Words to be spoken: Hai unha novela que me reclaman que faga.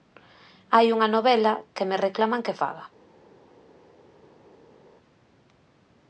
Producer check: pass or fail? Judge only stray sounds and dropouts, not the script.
pass